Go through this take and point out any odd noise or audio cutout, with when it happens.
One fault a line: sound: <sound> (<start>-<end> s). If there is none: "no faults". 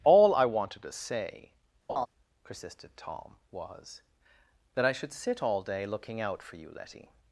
sound: laugh (1.9-2.1 s)